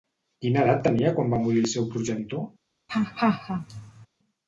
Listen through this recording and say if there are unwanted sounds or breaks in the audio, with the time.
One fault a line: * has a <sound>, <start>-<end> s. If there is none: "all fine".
* has a laugh, 2.9-4.1 s